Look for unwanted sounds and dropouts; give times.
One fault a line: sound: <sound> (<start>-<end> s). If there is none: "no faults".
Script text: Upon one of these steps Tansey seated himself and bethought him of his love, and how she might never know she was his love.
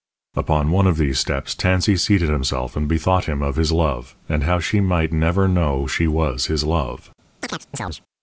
sound: chirp (7.4-8.0 s)